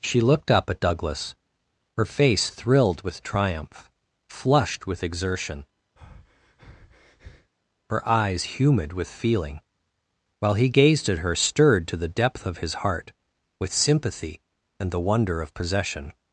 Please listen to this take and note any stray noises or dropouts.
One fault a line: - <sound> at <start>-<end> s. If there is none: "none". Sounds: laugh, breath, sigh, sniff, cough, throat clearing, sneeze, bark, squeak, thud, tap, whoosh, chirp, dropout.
- breath at 6.0-7.5 s